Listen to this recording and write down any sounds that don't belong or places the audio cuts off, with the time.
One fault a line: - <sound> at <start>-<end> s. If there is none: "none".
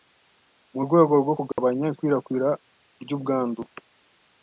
- dropout at 1.5-1.6 s